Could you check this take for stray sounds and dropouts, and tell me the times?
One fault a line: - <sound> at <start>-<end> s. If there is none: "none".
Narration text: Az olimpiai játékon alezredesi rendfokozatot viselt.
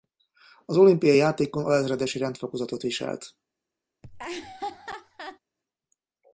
- laugh at 4.0-5.4 s